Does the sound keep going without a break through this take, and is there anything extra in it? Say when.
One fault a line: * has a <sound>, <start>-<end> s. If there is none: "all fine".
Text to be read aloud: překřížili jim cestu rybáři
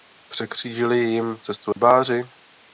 * has a dropout, 1.7-1.8 s